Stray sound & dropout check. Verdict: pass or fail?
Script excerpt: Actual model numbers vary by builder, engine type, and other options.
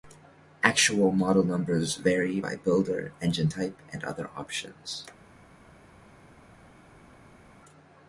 pass